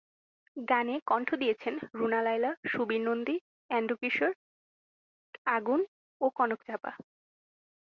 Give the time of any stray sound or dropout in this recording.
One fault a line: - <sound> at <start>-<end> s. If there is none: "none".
none